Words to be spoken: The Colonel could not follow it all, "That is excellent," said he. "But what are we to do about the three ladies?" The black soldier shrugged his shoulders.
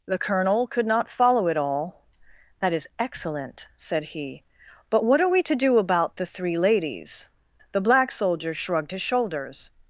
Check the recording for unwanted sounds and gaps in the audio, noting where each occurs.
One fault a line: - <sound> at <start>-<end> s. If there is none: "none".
none